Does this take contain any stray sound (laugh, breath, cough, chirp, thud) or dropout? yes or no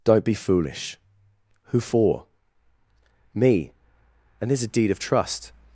no